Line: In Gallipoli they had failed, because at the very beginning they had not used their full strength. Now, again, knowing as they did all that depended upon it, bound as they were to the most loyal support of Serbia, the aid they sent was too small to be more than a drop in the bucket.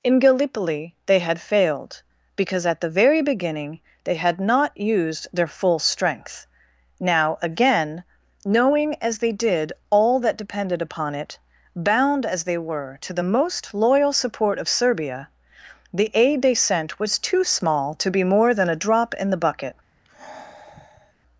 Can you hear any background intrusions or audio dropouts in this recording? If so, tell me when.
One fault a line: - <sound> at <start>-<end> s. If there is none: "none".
- sigh at 20.0-21.1 s